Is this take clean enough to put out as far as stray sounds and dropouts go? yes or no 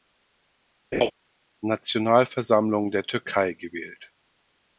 no